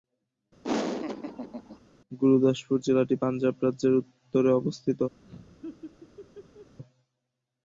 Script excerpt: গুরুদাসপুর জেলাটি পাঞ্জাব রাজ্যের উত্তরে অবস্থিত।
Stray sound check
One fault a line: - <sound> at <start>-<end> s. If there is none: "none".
- laugh at 0.6-1.8 s
- laugh at 5.2-6.8 s